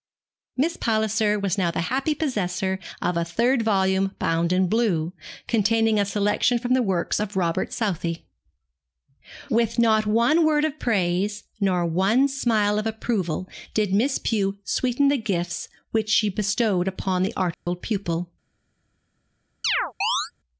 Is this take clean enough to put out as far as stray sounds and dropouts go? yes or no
no